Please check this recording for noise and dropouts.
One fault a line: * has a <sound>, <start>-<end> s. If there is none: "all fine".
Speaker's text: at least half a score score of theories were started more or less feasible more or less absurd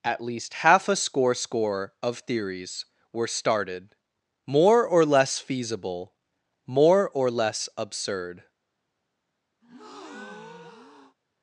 * has a breath, 9.6-11.2 s